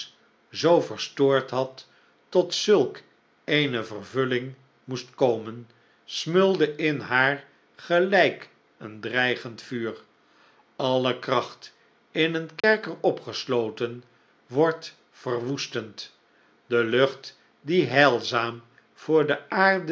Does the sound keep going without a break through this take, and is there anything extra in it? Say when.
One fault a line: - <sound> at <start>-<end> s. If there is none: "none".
- dropout at 12.6-12.6 s